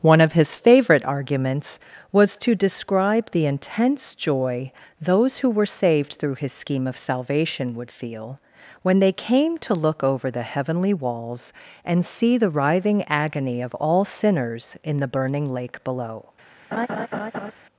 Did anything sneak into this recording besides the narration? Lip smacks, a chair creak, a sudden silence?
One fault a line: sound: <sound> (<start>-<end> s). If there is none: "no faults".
sound: laugh (16.7-17.5 s)